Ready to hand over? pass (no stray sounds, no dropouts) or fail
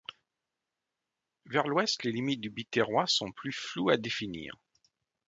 pass